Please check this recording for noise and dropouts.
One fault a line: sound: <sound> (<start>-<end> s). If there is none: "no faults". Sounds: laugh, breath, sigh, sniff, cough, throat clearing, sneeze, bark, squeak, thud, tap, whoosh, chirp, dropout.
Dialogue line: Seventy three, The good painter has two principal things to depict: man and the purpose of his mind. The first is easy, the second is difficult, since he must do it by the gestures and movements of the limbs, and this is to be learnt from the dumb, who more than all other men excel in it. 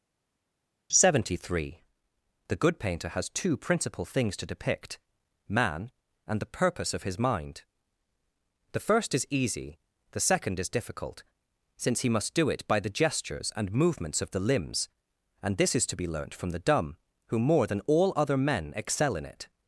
no faults